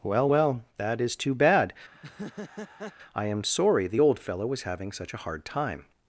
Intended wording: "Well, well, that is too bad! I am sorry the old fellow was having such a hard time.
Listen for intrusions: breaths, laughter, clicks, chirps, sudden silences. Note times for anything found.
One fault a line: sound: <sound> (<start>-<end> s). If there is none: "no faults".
sound: laugh (1.9-2.9 s)